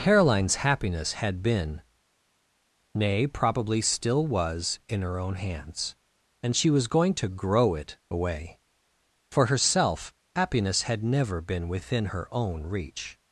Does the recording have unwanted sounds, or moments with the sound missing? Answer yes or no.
no